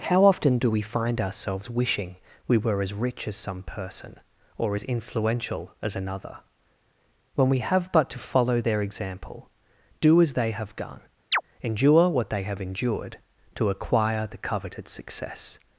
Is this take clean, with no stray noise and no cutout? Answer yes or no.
no